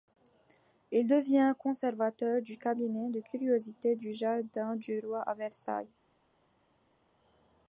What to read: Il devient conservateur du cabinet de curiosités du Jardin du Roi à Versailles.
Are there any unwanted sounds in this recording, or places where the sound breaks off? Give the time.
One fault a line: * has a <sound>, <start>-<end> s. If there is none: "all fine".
all fine